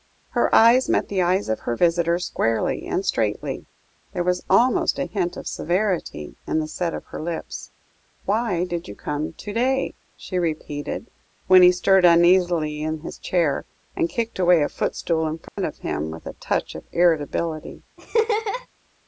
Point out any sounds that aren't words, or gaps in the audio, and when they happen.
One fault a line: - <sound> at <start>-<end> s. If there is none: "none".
- dropout at 15.5-15.6 s
- laugh at 18.0-18.7 s